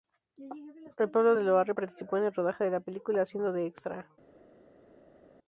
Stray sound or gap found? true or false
false